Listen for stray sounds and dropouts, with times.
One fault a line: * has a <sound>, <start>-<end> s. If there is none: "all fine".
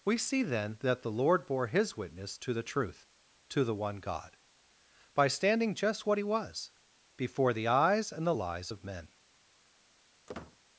* has a squeak, 10.3-10.6 s